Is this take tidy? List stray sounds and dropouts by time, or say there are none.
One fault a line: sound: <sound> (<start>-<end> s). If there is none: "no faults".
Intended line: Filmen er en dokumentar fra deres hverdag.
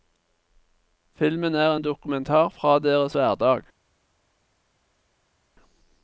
no faults